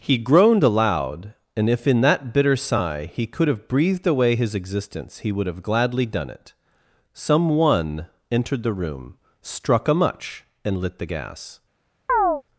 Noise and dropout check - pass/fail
fail